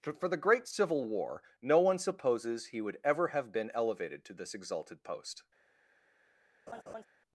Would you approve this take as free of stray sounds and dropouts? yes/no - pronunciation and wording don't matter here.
no